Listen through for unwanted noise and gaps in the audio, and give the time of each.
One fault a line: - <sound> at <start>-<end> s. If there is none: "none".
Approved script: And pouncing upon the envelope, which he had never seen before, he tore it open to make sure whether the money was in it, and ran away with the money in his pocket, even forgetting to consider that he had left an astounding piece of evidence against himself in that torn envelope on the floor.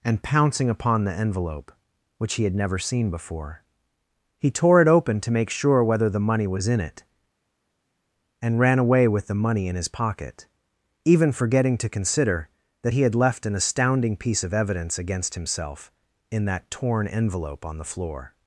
none